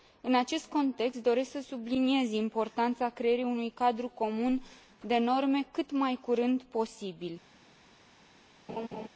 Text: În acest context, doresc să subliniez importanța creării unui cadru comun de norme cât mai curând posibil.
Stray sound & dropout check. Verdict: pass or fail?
fail